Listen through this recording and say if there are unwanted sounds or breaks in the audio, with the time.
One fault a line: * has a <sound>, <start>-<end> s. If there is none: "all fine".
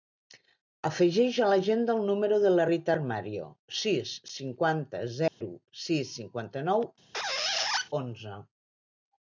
* has a dropout, 5.3-5.4 s
* has a squeak, 7.1-7.9 s